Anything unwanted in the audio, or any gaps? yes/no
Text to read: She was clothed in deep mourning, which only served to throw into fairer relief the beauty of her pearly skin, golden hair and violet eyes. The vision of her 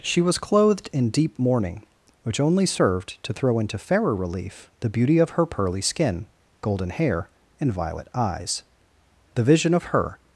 no